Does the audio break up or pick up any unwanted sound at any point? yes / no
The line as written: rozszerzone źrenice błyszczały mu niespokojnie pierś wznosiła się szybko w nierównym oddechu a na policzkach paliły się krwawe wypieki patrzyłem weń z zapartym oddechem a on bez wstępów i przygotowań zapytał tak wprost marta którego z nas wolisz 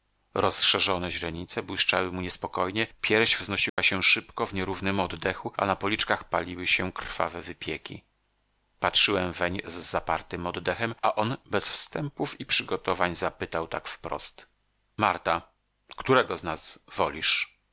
yes